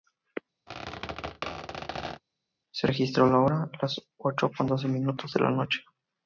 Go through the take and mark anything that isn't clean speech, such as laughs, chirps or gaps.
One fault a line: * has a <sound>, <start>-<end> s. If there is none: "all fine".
* has a squeak, 0.7-2.2 s